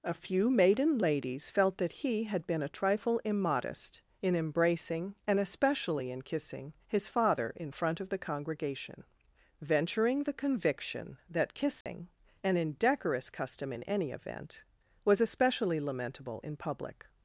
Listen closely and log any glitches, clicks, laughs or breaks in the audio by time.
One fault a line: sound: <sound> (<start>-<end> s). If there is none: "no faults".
sound: dropout (11.8-11.9 s)